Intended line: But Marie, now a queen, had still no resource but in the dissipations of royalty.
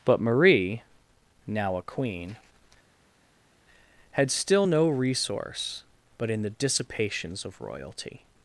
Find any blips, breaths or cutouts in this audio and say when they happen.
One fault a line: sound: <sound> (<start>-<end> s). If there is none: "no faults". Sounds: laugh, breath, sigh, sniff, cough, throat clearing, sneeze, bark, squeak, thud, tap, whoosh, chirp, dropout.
no faults